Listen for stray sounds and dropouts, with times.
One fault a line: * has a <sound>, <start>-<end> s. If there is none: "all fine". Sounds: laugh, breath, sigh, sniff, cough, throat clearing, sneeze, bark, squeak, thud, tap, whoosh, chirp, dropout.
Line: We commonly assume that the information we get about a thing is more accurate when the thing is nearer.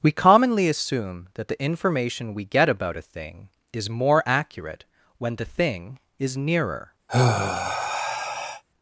* has a sigh, 7.1-8.6 s